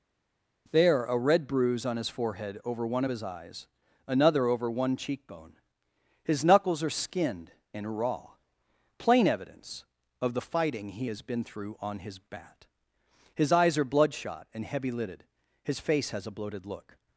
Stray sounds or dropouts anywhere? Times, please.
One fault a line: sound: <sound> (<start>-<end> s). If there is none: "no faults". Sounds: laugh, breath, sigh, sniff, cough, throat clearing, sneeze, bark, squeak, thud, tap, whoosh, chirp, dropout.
no faults